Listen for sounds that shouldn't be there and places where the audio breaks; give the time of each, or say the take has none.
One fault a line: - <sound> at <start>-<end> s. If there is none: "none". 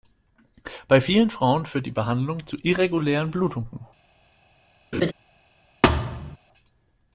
- laugh at 4.9-5.1 s
- thud at 5.8-6.4 s